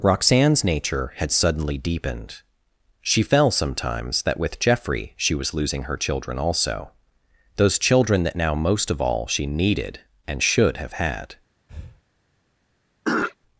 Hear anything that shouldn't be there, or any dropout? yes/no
yes